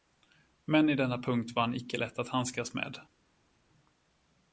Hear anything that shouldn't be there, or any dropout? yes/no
no